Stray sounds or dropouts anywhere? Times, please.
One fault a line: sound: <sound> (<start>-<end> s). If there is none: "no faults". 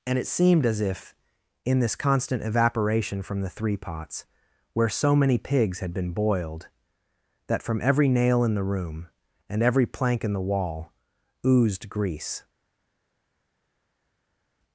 no faults